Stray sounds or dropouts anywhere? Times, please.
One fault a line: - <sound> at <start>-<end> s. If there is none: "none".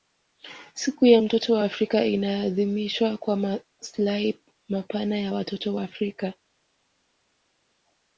none